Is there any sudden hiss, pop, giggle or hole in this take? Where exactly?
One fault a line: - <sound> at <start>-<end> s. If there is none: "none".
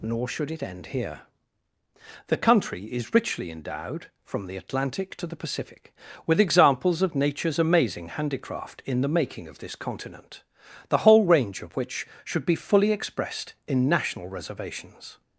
none